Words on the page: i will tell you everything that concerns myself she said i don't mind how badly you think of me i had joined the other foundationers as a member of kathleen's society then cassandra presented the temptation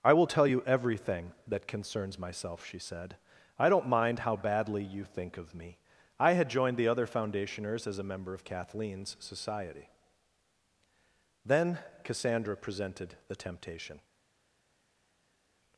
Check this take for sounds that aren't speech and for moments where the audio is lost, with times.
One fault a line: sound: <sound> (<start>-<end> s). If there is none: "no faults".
no faults